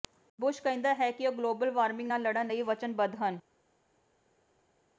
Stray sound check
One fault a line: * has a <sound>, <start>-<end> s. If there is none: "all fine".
all fine